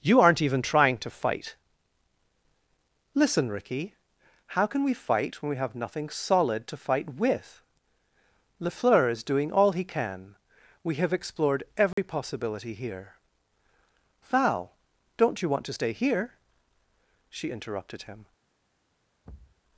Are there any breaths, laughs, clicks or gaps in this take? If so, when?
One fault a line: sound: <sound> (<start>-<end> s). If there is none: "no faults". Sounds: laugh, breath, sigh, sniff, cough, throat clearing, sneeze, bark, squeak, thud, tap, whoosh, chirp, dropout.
sound: dropout (11.9-12.0 s)
sound: thud (19.2-19.6 s)